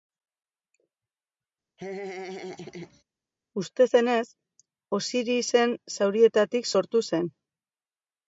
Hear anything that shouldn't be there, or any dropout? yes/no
yes